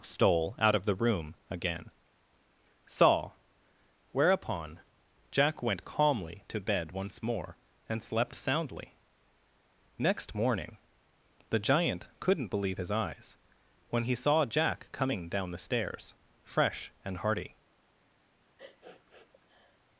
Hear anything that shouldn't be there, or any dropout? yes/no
yes